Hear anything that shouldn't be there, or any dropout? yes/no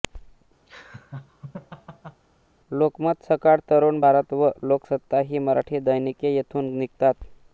yes